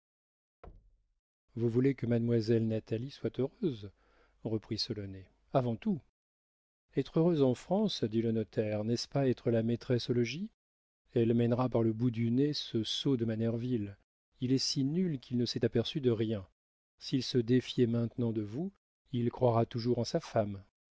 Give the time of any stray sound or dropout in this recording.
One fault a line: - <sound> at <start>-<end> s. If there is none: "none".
- thud at 0.6-1.2 s